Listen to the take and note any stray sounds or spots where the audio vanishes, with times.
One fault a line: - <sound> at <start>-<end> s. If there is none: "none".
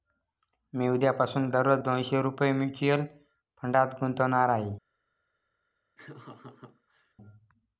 - laugh at 6.0-7.1 s